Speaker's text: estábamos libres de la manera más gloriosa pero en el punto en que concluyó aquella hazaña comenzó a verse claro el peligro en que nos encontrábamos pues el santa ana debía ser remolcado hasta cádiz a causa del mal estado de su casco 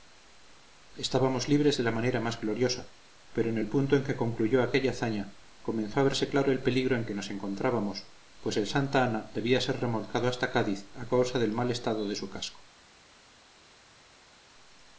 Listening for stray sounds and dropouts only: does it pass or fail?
pass